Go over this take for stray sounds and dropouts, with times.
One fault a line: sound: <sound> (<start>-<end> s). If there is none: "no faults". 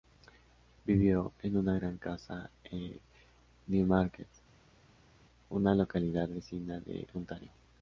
no faults